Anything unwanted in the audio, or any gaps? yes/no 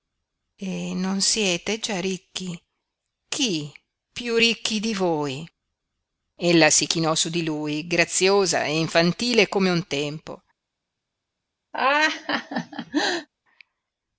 yes